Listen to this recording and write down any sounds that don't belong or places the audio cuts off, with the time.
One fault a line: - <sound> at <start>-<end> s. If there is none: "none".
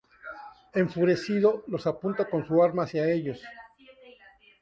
none